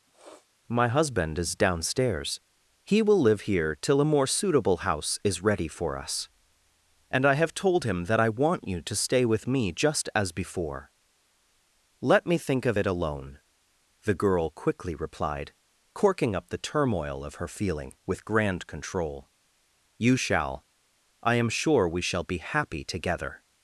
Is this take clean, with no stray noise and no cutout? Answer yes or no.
no